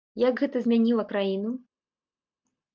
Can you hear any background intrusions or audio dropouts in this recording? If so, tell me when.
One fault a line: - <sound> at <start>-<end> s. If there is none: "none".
none